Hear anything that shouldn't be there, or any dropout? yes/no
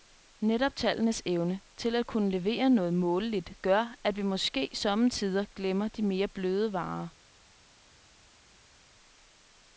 no